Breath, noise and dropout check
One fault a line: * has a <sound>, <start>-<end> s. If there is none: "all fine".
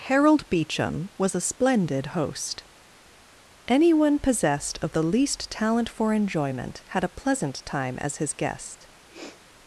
* has a sniff, 9.1-9.4 s